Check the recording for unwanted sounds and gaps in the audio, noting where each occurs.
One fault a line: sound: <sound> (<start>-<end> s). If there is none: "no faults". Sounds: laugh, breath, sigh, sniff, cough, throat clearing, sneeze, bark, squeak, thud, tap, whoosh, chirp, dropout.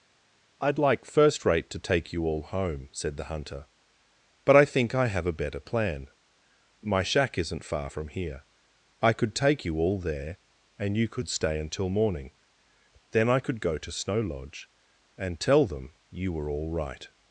no faults